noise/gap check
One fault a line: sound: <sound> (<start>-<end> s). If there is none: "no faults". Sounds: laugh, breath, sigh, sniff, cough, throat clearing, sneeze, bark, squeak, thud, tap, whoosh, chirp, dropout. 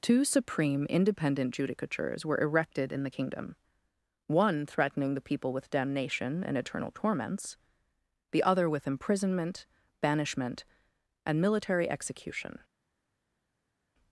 no faults